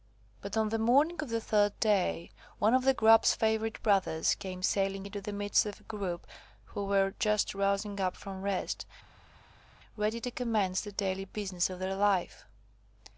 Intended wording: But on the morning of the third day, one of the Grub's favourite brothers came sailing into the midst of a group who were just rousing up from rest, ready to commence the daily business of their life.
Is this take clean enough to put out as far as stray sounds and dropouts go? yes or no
yes